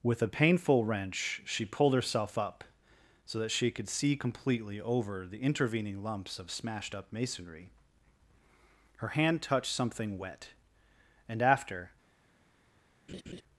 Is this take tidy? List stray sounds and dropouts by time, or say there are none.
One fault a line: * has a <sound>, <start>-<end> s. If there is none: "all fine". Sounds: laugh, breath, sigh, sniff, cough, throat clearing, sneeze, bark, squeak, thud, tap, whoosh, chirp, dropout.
* has a laugh, 13.1-13.4 s